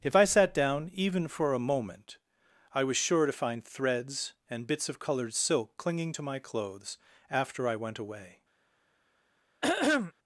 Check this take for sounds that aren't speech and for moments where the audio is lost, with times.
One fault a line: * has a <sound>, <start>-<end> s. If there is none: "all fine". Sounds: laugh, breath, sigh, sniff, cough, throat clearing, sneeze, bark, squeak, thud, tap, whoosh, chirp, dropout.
* has a throat clearing, 9.6-10.1 s